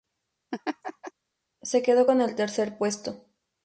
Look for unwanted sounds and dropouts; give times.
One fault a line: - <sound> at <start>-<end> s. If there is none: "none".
- laugh at 0.5-1.1 s